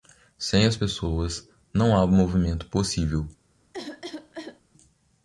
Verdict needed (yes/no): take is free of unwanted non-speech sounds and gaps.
no